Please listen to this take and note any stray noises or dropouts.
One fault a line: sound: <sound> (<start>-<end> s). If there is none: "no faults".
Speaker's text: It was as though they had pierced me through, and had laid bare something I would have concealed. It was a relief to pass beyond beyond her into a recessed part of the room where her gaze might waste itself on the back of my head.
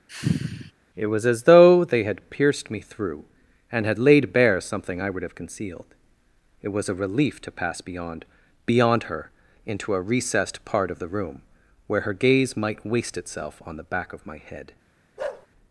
sound: sigh (0.1-0.7 s)
sound: bark (15.2-15.5 s)